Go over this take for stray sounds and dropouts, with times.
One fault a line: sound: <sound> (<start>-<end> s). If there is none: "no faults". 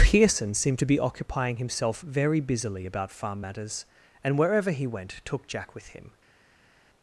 no faults